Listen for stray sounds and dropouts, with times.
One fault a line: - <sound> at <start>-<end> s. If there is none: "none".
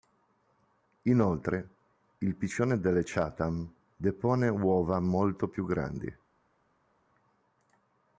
none